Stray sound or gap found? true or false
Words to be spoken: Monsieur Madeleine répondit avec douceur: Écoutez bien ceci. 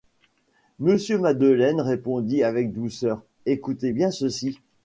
false